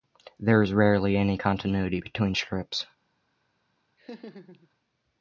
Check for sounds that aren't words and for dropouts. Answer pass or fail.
fail